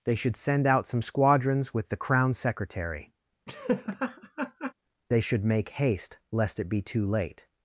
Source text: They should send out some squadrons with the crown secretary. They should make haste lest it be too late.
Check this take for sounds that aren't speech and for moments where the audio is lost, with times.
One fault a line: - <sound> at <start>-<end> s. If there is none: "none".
- laugh at 3.5-4.7 s